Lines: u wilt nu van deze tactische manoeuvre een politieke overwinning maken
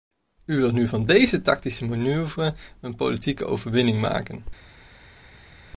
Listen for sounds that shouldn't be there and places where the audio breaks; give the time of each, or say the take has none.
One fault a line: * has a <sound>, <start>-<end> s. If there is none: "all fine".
all fine